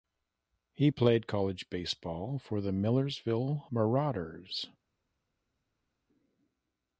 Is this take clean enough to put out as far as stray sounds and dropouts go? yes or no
yes